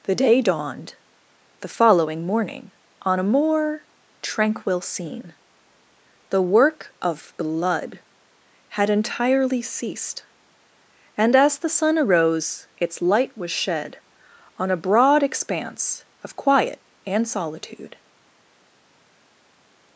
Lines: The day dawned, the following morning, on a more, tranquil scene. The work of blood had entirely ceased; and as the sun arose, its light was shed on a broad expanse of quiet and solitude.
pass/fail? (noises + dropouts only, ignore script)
pass